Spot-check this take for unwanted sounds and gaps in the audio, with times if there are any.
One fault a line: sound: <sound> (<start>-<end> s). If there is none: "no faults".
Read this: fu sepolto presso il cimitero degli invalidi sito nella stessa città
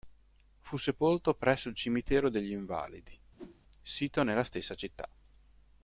sound: whoosh (3.4-3.6 s)